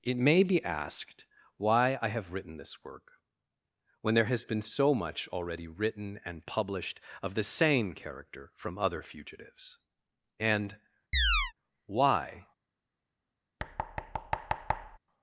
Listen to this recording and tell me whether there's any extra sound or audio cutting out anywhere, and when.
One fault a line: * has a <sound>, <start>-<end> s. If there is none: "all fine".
* has a chirp, 11.1-11.5 s
* has a thud, 13.6-15.0 s